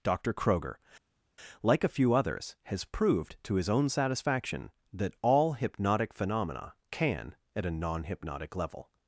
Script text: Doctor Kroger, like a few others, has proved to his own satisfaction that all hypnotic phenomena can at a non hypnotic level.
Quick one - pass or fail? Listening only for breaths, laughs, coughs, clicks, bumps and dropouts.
pass